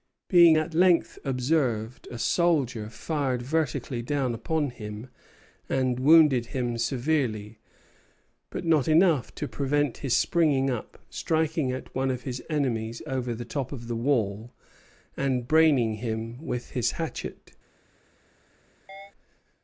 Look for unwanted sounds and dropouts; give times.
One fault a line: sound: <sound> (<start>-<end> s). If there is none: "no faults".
sound: chirp (18.9-19.1 s)